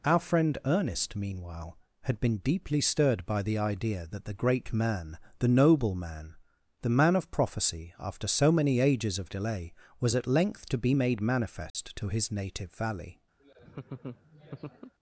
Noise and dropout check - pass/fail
fail